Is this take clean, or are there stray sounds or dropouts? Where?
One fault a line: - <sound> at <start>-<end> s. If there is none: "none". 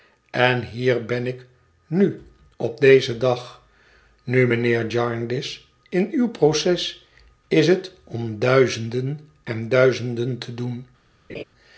- laugh at 11.3-11.4 s